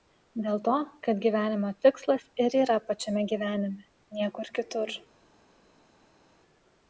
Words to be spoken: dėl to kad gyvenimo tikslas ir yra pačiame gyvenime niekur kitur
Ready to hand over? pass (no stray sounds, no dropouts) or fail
pass